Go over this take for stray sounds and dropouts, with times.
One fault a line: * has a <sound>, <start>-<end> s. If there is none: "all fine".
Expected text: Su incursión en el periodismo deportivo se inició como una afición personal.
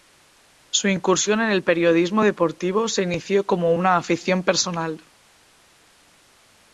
all fine